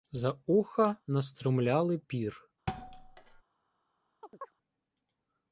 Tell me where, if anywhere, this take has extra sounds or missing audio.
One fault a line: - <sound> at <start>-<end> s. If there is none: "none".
- thud at 2.7-3.4 s
- chirp at 4.2-4.5 s